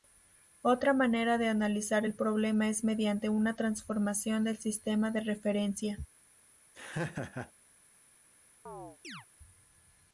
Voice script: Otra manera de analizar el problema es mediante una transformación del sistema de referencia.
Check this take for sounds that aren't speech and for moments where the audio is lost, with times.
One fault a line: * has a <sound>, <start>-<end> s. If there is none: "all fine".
* has a laugh, 6.7-7.5 s
* has a chirp, 8.7-9.3 s